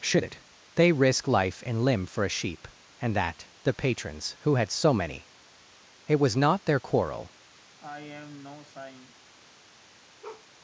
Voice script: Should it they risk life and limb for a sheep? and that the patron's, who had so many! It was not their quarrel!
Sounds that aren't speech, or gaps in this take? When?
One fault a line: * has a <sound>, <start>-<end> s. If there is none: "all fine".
* has a sigh, 7.8-9.1 s
* has a bark, 10.2-10.5 s